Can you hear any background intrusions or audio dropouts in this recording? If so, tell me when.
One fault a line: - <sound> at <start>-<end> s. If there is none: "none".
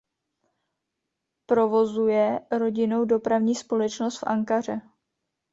none